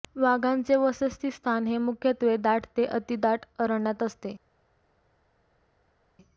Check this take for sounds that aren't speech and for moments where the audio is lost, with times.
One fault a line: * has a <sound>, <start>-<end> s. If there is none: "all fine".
all fine